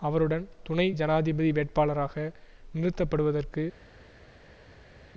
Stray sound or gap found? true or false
false